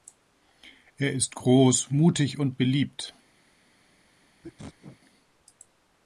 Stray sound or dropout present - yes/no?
yes